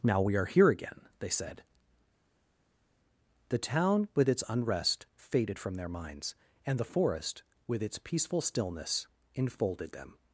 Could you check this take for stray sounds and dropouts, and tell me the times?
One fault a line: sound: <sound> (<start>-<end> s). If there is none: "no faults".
no faults